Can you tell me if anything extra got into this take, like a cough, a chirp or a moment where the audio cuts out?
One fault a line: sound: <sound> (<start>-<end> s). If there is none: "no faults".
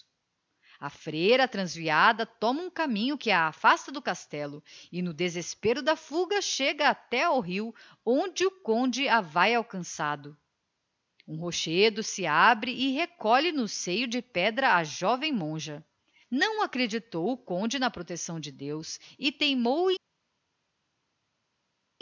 no faults